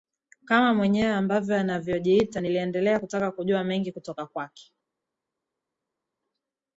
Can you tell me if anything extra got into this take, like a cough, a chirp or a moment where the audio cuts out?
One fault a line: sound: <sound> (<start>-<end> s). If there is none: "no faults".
no faults